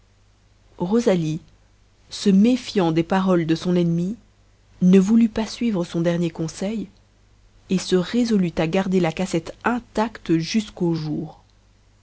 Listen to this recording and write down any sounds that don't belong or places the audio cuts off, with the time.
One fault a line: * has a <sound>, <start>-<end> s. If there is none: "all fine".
all fine